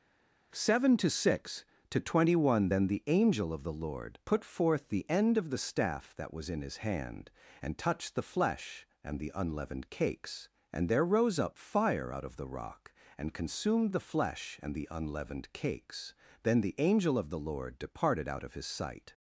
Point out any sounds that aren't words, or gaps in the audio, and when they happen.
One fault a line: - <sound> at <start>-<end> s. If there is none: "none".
none